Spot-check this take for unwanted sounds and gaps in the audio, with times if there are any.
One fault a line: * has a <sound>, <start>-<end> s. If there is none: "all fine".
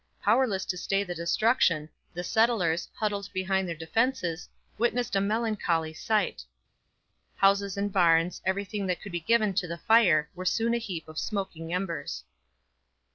all fine